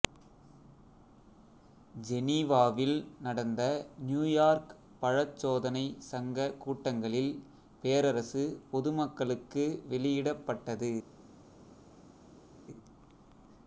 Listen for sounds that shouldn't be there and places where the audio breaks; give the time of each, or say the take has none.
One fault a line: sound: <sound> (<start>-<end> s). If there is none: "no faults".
no faults